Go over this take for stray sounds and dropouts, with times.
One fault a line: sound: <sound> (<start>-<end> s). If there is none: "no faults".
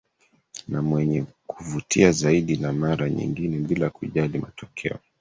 no faults